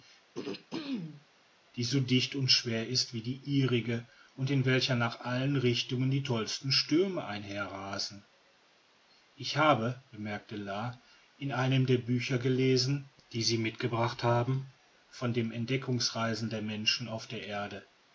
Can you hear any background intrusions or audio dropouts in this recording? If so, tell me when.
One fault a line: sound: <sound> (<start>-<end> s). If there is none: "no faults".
sound: throat clearing (0.3-1.3 s)